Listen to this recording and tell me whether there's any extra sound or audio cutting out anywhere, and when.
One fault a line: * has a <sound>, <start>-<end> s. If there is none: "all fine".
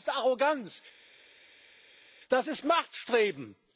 all fine